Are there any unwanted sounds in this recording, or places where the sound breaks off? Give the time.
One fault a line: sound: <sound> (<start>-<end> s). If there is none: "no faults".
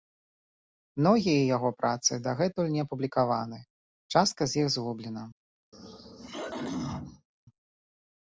sound: throat clearing (5.7-7.3 s)